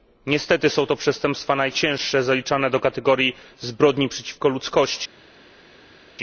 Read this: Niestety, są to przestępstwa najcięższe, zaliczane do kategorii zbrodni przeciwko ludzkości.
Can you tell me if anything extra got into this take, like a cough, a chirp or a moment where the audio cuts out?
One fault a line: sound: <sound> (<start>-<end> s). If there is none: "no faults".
no faults